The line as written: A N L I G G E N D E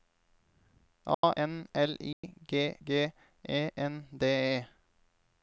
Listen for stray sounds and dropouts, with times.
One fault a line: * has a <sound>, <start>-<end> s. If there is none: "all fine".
* has a dropout, 1.1-1.2 s
* has a dropout, 2.1-2.2 s